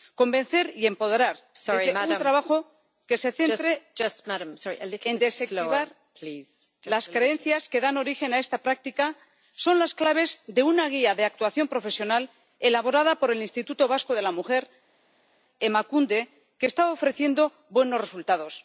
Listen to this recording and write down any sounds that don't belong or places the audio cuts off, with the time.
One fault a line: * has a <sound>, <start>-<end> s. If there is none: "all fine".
all fine